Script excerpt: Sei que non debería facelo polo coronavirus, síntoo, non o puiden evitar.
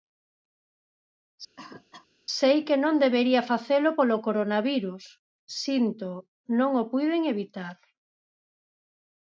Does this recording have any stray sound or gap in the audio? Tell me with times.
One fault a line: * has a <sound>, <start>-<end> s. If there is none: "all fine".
* has a cough, 1.6-2.1 s